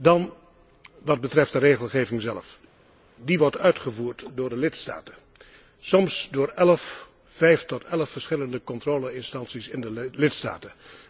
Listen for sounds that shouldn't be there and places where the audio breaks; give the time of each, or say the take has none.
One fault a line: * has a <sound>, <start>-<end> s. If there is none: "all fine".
all fine